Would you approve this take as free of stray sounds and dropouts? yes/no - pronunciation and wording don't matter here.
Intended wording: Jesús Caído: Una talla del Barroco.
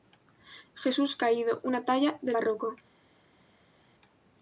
yes